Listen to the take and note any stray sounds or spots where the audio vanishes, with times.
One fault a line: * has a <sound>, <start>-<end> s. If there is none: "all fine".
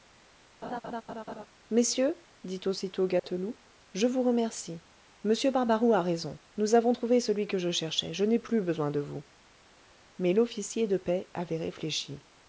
* has a laugh, 0.6-1.5 s
* has a dropout, 3.2-3.2 s